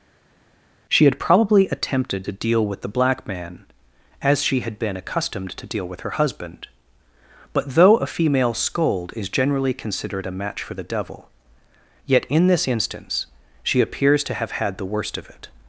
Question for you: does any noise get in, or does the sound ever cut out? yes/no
no